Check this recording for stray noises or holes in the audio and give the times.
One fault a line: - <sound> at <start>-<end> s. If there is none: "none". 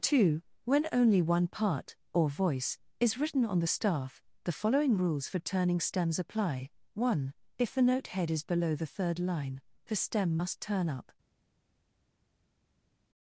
none